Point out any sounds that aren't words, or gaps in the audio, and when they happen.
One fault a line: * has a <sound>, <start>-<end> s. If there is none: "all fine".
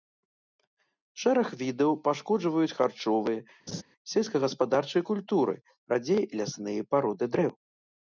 * has a laugh, 3.7-3.8 s